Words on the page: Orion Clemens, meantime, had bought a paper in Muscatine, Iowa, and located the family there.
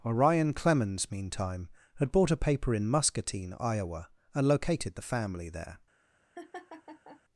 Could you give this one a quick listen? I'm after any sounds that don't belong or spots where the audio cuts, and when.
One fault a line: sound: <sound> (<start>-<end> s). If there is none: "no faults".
sound: laugh (6.4-7.2 s)